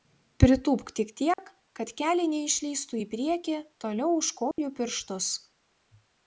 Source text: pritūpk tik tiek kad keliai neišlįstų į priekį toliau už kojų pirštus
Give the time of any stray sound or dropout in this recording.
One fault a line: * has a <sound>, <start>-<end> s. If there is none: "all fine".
* has a dropout, 1.3-1.4 s
* has a dropout, 4.5-4.6 s